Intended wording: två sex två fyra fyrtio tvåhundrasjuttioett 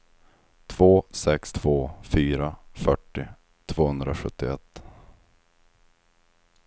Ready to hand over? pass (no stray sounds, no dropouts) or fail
pass